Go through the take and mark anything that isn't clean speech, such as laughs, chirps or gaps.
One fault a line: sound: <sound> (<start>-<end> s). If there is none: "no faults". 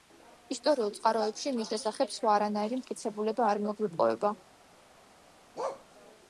sound: bark (5.6-5.9 s)